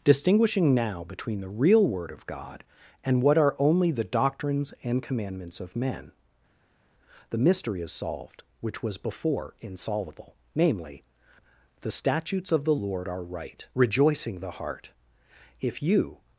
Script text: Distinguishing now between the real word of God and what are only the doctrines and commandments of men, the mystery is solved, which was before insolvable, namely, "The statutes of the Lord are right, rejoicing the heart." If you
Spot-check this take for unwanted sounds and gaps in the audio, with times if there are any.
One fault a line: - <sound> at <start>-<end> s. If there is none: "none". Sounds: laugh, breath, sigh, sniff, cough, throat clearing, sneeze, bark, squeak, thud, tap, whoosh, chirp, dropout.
none